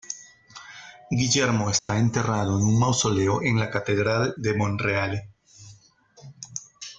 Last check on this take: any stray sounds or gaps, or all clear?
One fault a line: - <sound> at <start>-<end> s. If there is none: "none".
- dropout at 1.8-1.9 s